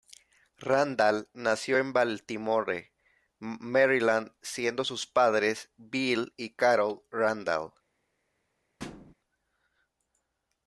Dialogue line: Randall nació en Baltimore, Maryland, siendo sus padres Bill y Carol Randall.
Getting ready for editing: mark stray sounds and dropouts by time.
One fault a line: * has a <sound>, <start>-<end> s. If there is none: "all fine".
* has a thud, 8.8-9.1 s